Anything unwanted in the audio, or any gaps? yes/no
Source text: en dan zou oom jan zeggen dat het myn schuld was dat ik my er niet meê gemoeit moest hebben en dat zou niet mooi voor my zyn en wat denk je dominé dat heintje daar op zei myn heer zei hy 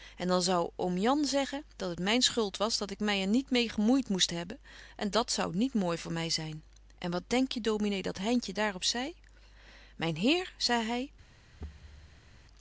yes